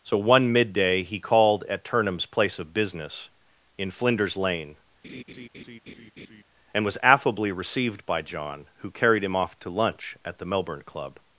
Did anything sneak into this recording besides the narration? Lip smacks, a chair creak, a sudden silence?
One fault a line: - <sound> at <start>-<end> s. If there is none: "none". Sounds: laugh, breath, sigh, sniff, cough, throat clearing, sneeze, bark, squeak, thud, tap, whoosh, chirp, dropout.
- laugh at 5.0-6.4 s